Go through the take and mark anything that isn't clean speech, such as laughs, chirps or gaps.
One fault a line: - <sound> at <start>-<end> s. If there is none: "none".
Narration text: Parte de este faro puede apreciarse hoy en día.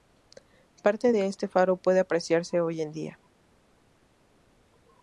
none